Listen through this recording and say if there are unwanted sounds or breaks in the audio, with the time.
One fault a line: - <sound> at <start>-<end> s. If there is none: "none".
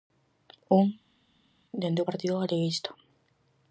none